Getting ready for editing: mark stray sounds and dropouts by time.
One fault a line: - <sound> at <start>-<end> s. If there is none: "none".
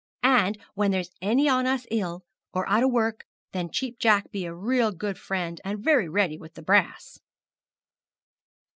none